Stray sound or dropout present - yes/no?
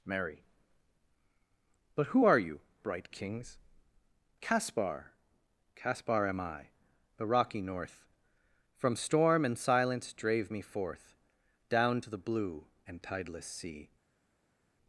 no